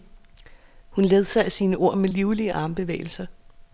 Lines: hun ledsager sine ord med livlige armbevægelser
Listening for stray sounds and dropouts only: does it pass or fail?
pass